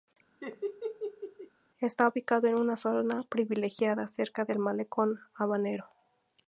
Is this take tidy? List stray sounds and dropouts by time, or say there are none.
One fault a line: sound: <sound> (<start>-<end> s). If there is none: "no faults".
sound: laugh (0.4-1.5 s)